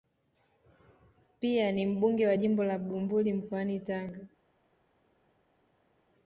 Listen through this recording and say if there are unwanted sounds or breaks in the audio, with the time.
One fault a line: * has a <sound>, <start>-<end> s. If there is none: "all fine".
all fine